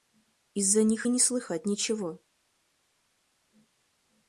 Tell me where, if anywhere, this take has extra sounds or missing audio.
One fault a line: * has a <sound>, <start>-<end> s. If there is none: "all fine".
all fine